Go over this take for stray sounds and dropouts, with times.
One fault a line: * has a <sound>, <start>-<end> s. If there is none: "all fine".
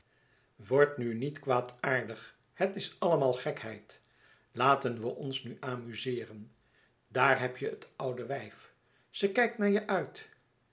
all fine